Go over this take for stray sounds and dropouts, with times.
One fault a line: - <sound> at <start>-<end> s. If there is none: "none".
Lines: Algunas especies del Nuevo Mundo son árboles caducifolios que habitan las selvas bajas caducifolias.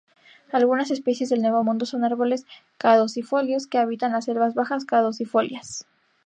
none